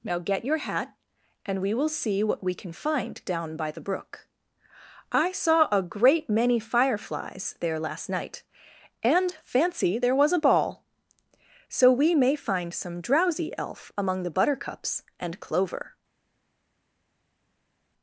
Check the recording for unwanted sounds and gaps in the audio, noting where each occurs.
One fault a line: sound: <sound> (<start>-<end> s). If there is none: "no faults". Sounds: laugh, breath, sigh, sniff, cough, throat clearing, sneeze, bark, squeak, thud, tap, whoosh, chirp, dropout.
no faults